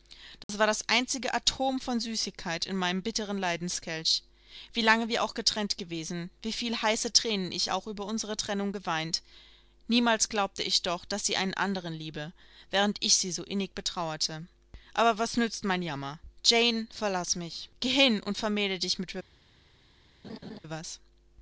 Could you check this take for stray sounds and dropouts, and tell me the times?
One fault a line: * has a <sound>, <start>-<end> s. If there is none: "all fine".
* has a dropout, 0.4-0.5 s
* has a laugh, 20.2-20.6 s